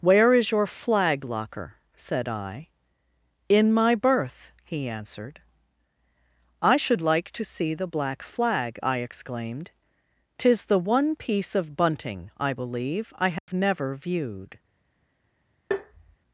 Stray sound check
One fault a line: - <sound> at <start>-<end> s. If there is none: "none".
- dropout at 13.4-13.5 s
- tap at 15.7-16.2 s